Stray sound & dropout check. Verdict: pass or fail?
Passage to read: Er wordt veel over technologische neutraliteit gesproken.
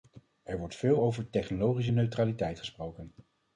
pass